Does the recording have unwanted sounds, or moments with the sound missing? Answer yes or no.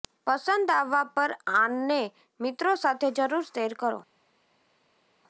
no